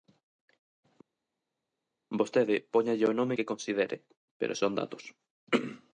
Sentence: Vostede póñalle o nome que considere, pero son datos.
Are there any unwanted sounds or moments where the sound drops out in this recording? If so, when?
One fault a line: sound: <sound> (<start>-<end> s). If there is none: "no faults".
no faults